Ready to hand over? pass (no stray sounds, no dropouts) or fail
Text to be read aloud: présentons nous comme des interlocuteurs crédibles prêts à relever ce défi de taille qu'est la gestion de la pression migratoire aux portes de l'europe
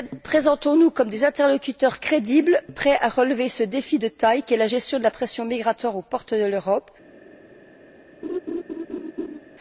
fail